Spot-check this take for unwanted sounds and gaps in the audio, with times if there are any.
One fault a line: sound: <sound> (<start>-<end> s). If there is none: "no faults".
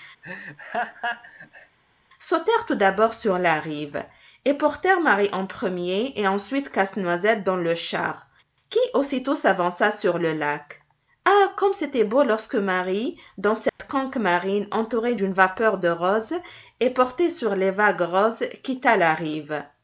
sound: laugh (0.2-1.8 s)
sound: dropout (13.7-13.8 s)